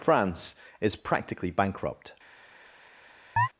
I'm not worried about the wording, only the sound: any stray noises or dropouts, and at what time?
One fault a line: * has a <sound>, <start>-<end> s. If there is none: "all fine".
* has a chirp, 3.4-3.5 s